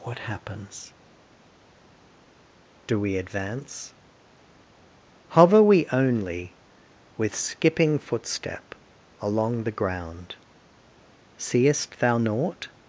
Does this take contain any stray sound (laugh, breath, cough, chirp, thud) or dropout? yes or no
no